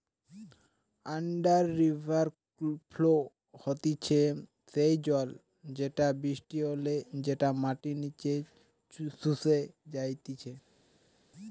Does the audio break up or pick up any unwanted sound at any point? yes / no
no